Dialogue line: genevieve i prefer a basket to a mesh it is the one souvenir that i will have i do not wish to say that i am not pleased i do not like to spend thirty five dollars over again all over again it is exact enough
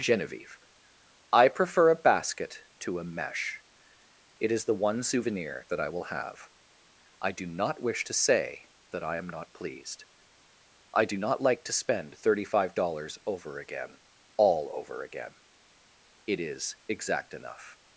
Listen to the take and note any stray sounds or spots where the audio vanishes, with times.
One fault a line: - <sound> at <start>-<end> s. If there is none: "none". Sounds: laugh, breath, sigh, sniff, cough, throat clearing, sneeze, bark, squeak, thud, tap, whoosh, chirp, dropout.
none